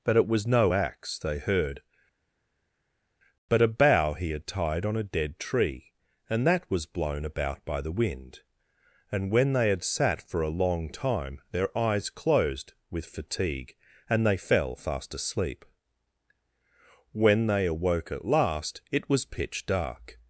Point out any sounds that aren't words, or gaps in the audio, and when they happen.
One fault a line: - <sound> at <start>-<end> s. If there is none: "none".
none